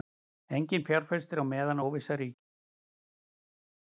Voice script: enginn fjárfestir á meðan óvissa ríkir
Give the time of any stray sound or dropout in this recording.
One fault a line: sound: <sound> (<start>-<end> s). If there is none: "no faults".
no faults